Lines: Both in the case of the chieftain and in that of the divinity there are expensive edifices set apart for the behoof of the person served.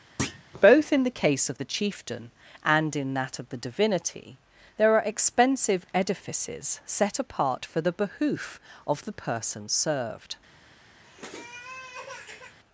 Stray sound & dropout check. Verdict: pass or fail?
fail